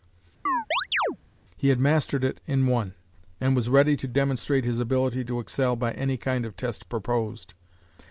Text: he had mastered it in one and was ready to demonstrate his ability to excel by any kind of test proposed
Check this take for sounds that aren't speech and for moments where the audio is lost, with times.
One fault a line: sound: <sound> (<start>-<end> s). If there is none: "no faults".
sound: chirp (0.5-1.2 s)